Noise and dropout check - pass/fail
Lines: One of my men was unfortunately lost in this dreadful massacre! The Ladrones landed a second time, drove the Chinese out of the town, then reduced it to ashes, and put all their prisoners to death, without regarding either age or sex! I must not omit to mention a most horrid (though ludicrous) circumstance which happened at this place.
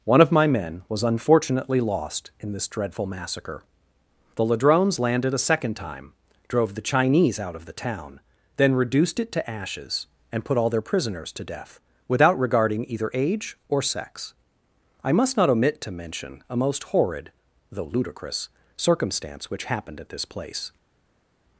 pass